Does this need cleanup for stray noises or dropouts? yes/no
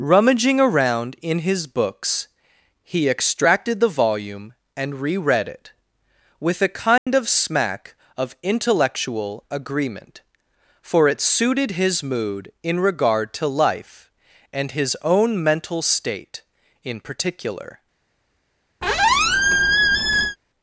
yes